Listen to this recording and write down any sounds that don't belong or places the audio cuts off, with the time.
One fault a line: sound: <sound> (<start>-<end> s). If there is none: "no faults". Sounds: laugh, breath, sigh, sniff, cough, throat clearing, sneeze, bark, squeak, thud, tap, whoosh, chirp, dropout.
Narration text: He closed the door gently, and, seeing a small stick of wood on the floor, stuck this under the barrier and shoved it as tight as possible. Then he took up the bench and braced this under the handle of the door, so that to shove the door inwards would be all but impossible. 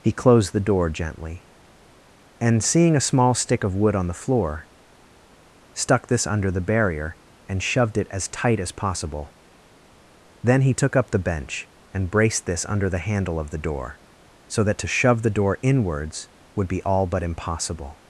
no faults